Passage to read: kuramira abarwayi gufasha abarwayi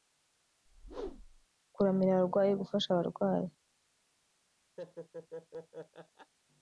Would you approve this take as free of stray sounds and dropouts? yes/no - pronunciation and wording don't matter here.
no